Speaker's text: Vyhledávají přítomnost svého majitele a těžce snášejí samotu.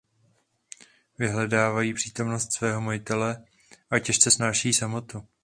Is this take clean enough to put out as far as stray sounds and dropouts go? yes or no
yes